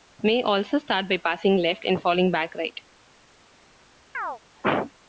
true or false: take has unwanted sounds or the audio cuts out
true